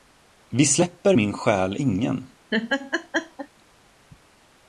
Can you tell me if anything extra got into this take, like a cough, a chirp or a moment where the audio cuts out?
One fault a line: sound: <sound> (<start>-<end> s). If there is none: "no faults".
sound: laugh (2.5-3.5 s)